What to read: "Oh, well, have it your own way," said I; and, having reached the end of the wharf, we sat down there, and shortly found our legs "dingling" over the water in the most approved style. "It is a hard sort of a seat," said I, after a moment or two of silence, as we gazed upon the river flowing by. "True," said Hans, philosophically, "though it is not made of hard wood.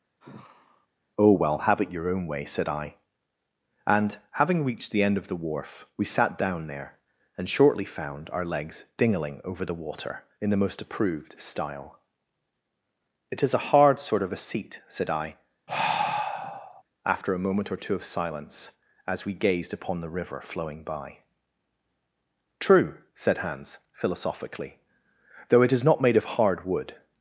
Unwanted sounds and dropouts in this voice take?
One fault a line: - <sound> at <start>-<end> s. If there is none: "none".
- sigh at 0.2-0.9 s
- sigh at 15.7-16.8 s